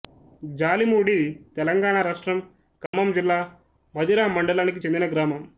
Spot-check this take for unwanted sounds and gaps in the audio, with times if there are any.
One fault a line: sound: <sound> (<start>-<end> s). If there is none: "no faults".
sound: dropout (2.9-2.9 s)